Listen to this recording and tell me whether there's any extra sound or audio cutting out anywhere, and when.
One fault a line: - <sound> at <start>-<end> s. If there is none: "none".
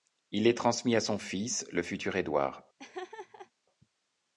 - laugh at 2.8-3.5 s